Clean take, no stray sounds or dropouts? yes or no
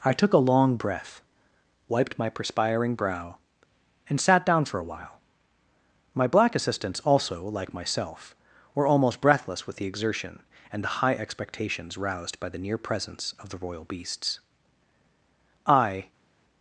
yes